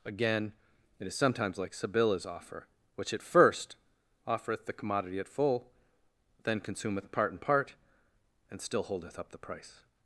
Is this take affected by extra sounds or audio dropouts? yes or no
no